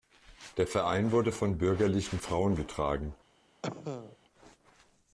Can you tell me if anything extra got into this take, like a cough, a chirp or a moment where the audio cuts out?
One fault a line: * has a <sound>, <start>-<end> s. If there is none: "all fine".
* has a cough, 3.6-4.2 s